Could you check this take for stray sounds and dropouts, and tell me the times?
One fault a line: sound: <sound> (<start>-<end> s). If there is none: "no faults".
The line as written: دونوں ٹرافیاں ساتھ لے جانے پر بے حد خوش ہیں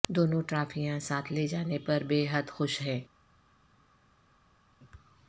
no faults